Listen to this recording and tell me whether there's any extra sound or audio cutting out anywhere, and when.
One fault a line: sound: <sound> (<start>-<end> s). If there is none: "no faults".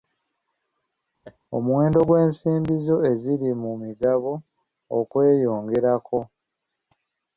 sound: laugh (1.2-1.4 s)